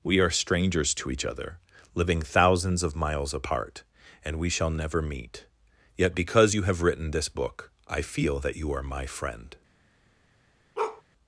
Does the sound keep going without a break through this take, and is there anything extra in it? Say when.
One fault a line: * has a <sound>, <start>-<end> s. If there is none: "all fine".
* has a bark, 10.8-11.0 s